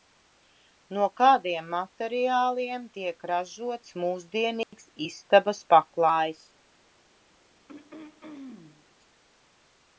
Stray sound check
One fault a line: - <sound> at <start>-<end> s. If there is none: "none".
- dropout at 4.6-4.7 s
- throat clearing at 7.7-8.9 s